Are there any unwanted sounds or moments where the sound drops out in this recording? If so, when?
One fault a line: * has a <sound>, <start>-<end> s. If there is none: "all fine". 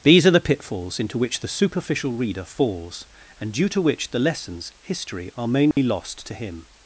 * has a dropout, 5.7-5.8 s